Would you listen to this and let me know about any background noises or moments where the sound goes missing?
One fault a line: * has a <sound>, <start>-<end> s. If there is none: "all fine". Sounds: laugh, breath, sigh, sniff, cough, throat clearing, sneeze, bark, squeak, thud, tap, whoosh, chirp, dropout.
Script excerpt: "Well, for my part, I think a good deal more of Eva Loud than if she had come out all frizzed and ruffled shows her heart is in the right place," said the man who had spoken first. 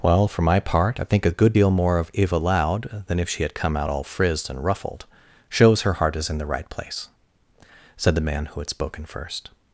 all fine